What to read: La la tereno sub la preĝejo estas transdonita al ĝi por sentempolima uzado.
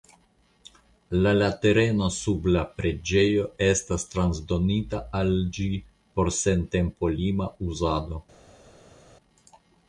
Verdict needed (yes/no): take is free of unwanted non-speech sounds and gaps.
yes